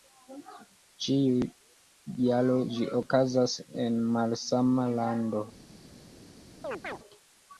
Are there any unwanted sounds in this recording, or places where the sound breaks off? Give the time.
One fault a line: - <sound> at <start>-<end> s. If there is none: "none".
- chirp at 6.6-7.0 s